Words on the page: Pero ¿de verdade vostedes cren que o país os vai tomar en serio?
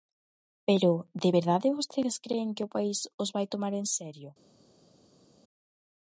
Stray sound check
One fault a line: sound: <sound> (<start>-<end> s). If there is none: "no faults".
no faults